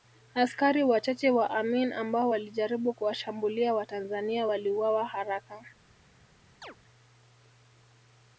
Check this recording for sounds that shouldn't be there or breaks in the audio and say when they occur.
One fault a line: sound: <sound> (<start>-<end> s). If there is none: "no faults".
sound: chirp (6.6-6.8 s)